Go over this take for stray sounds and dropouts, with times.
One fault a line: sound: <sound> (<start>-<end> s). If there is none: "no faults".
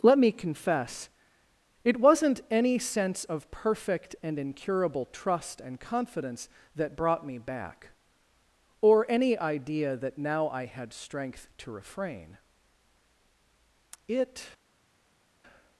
no faults